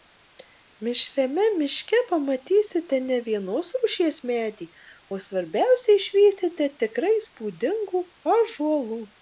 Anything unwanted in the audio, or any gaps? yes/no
no